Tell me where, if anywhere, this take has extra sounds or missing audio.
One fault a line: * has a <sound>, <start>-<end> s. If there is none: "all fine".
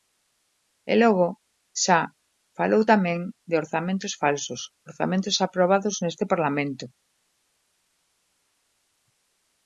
all fine